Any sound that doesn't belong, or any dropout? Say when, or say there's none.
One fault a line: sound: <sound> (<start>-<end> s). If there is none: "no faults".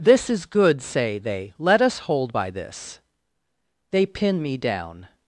no faults